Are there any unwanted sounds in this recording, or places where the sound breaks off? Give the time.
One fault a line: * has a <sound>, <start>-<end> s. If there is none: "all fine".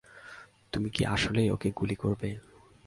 all fine